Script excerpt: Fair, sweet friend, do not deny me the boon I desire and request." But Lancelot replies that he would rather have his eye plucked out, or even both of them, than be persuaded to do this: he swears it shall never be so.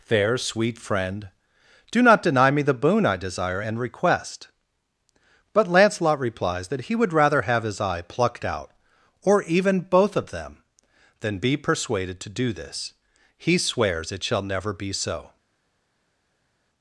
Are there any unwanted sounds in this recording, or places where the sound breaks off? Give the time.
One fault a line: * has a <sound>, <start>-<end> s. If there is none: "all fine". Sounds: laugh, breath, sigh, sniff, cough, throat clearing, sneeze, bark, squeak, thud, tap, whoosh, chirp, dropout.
all fine